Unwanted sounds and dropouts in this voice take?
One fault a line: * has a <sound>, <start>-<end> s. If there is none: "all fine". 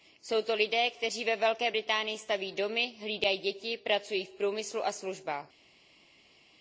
all fine